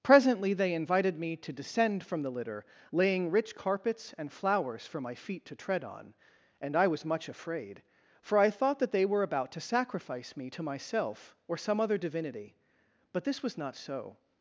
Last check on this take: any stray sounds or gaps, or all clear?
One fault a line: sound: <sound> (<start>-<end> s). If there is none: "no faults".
no faults